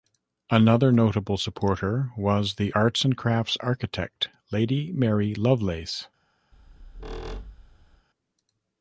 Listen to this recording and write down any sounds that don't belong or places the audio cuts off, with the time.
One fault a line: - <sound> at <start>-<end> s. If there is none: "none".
- squeak at 6.5-8.1 s